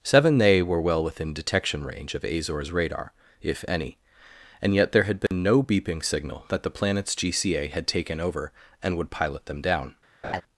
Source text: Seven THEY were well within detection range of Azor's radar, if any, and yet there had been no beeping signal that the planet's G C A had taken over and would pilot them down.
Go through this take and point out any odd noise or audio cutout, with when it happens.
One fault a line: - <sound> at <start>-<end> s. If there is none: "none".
- dropout at 5.3-5.3 s
- laugh at 10.2-10.4 s